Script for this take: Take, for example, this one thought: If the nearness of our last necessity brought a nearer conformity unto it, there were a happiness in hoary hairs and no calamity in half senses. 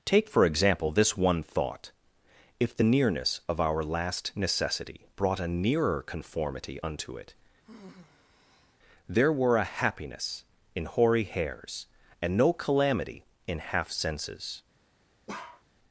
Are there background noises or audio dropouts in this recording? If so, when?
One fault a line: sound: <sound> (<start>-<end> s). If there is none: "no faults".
sound: sigh (7.6-8.8 s)
sound: bark (15.3-15.6 s)